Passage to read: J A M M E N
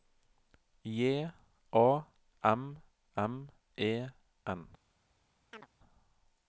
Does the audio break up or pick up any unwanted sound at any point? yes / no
yes